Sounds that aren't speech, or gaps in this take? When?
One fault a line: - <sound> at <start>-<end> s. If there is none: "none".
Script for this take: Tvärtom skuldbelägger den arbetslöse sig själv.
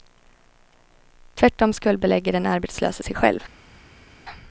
none